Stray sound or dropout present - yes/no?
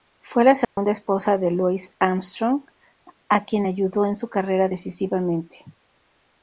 yes